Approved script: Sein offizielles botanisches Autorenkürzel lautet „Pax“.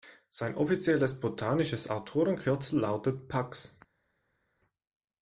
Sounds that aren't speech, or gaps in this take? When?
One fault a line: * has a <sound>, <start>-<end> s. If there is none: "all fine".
all fine